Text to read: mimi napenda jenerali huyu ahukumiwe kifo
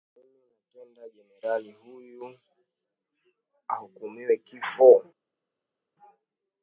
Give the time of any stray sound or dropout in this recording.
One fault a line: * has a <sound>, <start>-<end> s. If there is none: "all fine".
all fine